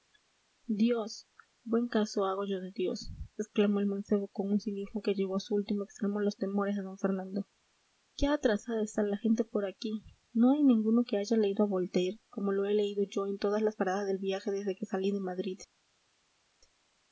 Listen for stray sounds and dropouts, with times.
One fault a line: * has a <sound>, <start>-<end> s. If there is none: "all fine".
all fine